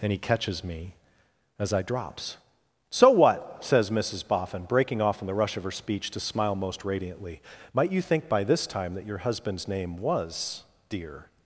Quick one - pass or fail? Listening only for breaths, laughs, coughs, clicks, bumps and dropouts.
pass